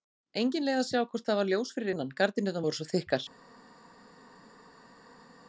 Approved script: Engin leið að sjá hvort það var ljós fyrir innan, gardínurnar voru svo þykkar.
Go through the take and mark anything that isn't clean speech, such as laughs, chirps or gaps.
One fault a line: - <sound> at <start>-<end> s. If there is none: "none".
none